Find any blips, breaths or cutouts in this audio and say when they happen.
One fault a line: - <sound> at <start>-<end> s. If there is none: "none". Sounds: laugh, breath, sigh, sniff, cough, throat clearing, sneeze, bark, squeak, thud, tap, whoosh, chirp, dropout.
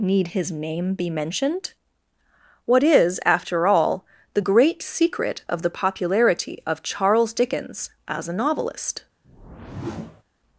- whoosh at 9.2-10.2 s